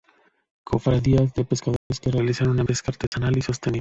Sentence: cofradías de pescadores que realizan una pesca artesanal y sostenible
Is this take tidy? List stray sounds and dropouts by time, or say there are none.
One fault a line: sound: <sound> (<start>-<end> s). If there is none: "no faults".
sound: dropout (1.8-1.9 s)
sound: dropout (3.1-3.1 s)